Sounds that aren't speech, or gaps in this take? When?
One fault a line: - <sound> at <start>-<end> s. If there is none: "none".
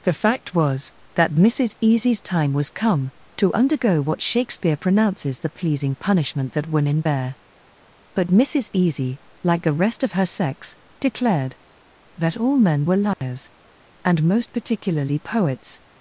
- dropout at 13.1-13.2 s